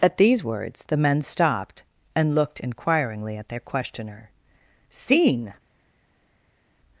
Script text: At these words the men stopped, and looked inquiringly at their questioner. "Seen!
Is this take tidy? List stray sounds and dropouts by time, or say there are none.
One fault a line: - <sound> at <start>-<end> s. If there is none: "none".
none